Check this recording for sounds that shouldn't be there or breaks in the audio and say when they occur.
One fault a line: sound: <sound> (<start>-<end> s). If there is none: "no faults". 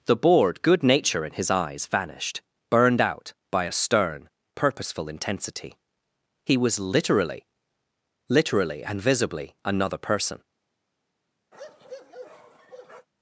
sound: bark (11.5-13.1 s)